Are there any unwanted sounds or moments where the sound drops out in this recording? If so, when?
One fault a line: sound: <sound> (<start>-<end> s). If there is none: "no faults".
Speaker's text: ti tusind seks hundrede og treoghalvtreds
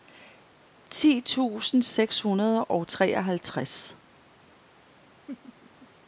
sound: laugh (5.3-5.9 s)